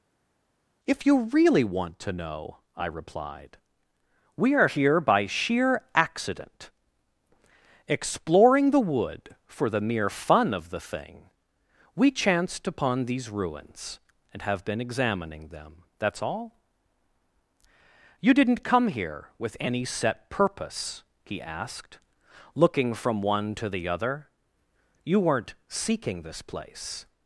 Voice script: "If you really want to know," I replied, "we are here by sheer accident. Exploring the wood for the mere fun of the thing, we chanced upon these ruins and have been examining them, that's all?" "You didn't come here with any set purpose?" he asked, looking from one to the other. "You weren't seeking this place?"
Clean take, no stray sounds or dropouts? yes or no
yes